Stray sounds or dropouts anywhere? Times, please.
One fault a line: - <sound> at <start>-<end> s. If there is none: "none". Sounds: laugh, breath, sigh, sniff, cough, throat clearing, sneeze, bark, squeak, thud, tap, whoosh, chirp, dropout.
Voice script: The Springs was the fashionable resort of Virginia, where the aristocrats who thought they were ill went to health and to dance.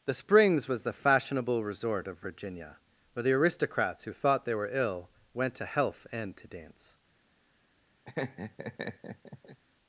- laugh at 8.0-9.6 s